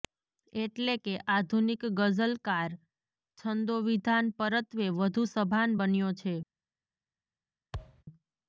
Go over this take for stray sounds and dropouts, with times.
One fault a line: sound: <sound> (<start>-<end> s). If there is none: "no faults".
sound: thud (7.7-8.0 s)